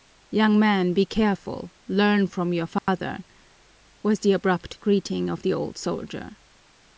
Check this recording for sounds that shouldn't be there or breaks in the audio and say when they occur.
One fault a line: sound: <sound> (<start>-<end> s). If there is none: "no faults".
sound: dropout (2.8-2.9 s)